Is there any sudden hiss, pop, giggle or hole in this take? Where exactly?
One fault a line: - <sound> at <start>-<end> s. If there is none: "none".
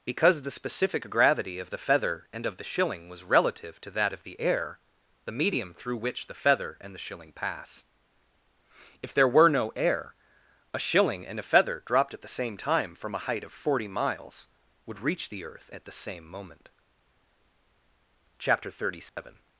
- dropout at 19.1-19.2 s